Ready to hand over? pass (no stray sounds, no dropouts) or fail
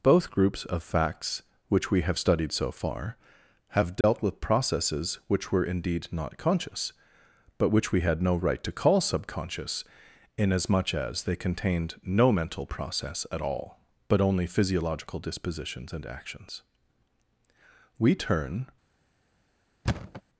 fail